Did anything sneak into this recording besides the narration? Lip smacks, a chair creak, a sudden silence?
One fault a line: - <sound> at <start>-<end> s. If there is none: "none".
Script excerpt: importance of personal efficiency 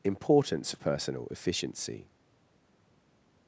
none